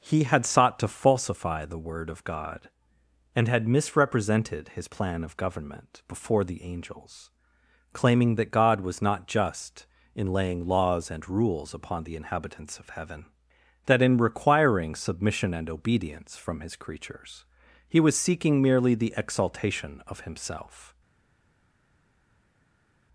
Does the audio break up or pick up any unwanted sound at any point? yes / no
no